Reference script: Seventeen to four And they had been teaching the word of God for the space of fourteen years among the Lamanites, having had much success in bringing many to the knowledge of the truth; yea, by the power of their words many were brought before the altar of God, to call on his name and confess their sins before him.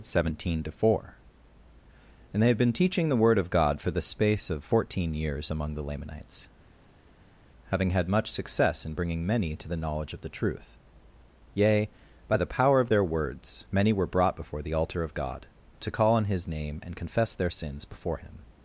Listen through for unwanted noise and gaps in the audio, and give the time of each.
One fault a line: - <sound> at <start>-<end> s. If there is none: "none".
none